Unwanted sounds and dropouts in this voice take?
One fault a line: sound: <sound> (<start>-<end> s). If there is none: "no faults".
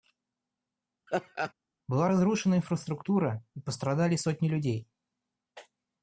sound: laugh (1.1-1.5 s)